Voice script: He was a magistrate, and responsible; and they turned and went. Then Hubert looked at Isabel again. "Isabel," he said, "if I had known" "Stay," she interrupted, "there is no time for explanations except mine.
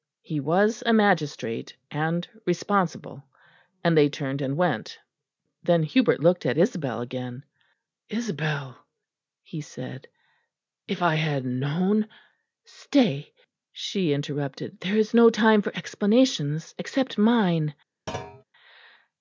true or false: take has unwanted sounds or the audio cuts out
true